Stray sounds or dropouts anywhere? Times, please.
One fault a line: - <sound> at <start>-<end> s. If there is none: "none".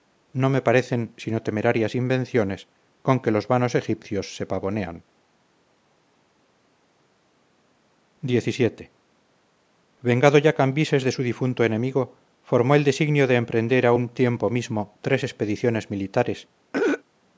- throat clearing at 16.7-17.0 s